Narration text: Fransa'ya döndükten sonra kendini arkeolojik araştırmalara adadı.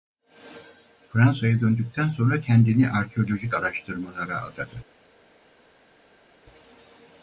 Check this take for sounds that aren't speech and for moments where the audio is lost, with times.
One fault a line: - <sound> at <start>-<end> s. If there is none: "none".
none